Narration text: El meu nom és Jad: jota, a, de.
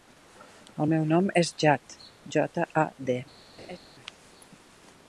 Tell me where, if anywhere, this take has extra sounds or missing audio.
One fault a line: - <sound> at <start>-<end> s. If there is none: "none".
- laugh at 3.6-3.8 s